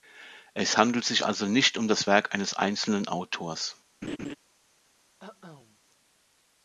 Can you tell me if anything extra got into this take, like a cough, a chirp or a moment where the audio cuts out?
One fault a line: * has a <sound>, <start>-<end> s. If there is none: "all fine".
* has a laugh, 4.0-4.4 s
* has a cough, 5.2-5.8 s